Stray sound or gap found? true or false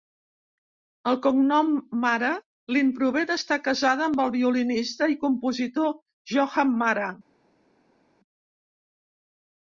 false